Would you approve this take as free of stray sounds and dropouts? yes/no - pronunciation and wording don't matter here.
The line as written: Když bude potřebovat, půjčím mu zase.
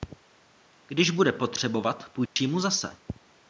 no